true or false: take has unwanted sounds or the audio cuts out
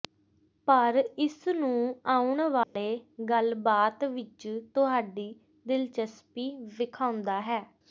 true